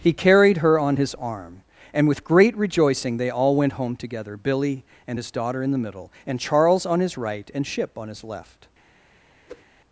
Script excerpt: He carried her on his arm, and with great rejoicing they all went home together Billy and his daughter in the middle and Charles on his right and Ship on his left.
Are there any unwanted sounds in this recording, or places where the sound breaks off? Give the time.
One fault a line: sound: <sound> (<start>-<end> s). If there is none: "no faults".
sound: whoosh (9.5-9.6 s)